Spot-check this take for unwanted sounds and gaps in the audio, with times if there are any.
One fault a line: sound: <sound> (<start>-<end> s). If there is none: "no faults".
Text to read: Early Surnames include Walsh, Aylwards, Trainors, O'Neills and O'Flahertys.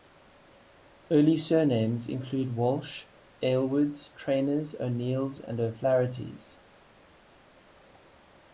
no faults